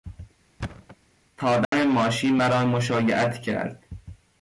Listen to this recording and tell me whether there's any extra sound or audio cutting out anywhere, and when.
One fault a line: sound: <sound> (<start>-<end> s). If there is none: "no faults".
sound: thud (0.6-1.0 s)
sound: dropout (1.6-1.7 s)